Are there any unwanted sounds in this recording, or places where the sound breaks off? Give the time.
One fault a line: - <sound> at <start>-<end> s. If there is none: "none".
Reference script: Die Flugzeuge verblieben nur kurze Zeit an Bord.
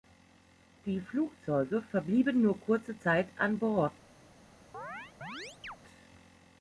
- chirp at 4.7-5.8 s